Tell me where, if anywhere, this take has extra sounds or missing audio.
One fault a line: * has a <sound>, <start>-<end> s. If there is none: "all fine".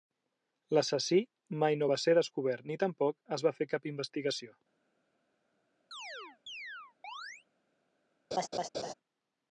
* has a chirp, 5.9-7.5 s
* has a laugh, 8.3-8.9 s